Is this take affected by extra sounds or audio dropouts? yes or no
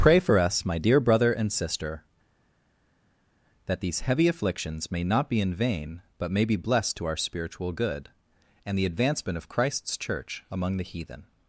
no